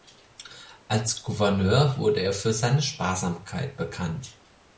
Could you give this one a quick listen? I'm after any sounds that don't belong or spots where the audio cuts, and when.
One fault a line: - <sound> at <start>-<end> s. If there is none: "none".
none